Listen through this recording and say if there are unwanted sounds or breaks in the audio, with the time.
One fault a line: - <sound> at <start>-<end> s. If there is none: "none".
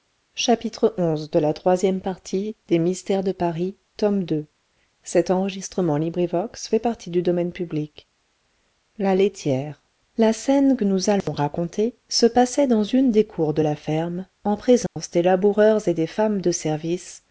- dropout at 11.2-11.3 s
- dropout at 14.9-15.0 s